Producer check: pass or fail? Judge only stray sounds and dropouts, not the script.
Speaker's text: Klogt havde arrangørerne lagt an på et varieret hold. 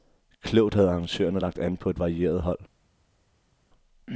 pass